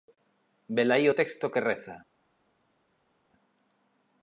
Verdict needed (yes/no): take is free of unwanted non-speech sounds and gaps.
yes